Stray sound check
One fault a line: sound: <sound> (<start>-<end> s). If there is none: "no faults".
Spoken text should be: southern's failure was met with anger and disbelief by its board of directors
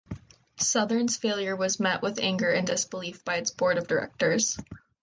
no faults